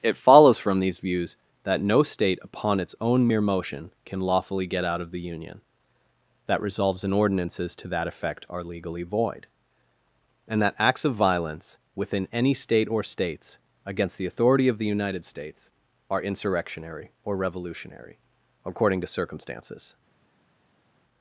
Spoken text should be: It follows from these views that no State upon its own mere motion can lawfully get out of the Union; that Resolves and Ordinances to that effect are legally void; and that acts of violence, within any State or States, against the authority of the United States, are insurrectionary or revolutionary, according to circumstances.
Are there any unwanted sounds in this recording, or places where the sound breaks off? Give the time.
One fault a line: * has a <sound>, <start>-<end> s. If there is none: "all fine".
all fine